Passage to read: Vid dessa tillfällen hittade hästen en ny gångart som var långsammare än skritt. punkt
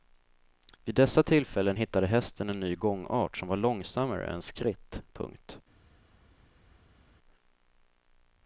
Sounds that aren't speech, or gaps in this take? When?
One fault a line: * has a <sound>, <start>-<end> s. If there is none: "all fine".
all fine